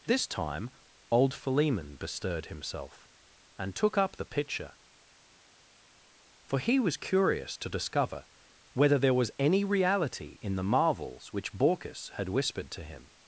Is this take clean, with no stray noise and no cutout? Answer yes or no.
yes